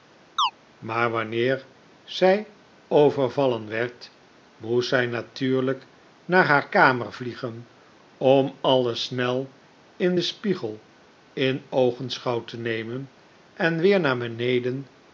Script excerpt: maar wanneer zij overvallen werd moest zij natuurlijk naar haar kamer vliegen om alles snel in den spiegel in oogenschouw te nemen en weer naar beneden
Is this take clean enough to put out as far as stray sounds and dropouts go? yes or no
no